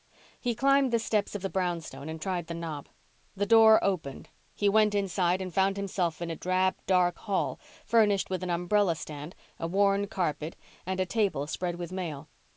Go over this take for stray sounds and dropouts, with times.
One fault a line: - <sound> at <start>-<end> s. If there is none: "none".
none